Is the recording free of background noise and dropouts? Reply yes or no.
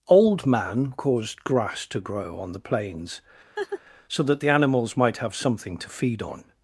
no